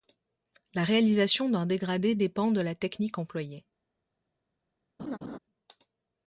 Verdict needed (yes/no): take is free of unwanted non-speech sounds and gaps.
no